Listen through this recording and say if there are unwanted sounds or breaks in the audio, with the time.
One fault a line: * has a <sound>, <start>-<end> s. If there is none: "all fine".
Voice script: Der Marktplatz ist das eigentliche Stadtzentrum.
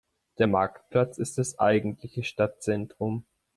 all fine